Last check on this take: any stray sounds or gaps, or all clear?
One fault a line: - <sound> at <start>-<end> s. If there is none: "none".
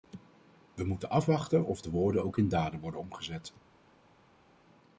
none